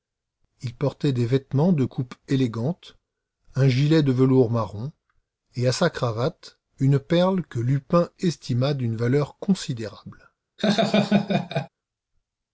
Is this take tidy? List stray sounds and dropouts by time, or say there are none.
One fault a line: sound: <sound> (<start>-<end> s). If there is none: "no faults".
sound: laugh (10.6-11.7 s)